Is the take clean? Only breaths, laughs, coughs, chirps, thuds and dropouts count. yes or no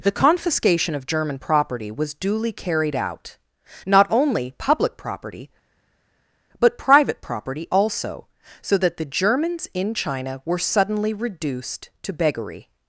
yes